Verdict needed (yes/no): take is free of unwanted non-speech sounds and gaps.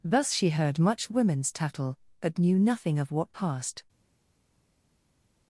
yes